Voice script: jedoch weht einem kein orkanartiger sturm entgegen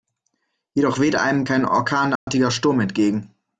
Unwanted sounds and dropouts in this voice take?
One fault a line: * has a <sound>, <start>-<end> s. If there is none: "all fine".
* has a dropout, 2.2-2.3 s